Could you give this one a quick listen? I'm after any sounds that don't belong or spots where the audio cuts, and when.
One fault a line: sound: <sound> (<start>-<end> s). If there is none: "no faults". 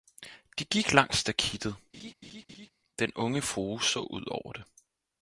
sound: laugh (1.9-2.7 s)